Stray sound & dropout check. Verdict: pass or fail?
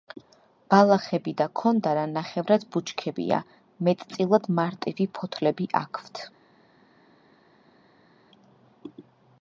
pass